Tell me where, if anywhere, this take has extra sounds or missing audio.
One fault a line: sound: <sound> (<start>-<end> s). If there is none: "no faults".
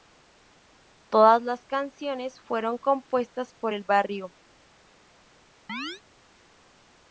sound: chirp (5.7-6.0 s)